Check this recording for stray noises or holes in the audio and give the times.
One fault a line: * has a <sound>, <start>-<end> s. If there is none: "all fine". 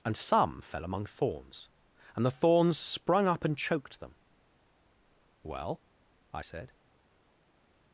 all fine